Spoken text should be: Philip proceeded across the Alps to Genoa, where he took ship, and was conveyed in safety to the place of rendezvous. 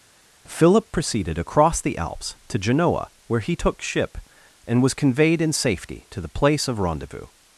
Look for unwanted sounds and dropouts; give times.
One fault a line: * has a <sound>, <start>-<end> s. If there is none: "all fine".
all fine